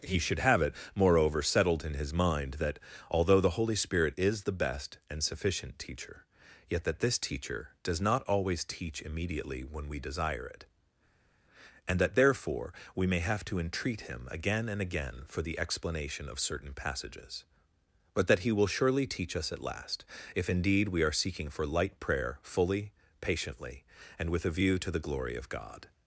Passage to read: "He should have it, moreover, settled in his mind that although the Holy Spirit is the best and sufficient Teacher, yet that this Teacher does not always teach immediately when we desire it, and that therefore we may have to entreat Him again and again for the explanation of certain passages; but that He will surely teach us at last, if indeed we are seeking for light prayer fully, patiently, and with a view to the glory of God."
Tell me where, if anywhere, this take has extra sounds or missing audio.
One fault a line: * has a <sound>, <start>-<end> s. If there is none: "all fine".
all fine